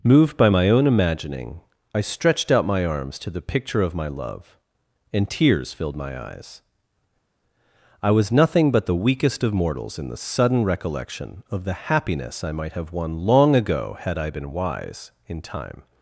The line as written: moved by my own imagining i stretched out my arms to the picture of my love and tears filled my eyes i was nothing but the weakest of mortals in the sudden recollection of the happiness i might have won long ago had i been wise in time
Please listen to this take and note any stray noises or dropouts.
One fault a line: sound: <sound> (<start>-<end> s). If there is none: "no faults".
no faults